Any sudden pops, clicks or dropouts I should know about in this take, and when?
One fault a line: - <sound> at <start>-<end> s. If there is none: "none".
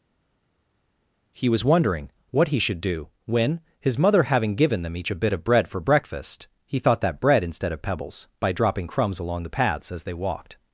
none